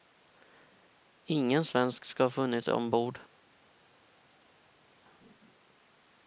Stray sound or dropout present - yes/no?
no